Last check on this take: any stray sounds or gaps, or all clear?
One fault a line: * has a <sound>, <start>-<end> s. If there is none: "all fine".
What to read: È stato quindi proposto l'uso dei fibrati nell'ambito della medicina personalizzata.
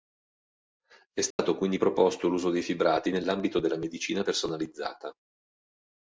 * has a dropout, 1.3-1.4 s